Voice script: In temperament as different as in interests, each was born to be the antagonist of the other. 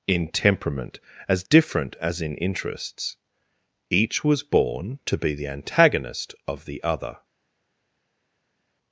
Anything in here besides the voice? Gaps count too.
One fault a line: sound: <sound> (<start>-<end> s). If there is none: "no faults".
no faults